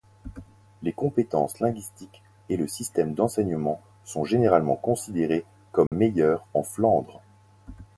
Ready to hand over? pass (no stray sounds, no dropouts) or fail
fail